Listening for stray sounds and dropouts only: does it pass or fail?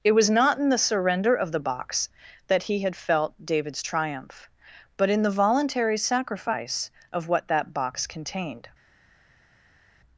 pass